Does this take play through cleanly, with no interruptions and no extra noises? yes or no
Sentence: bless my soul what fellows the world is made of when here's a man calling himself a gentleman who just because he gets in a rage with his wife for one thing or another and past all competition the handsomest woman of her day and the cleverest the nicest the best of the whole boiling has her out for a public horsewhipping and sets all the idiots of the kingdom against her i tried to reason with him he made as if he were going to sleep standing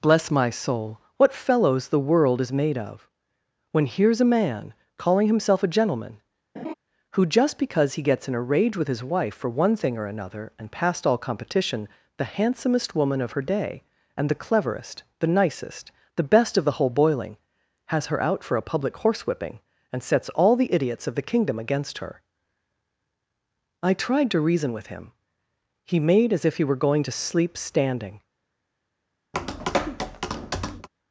no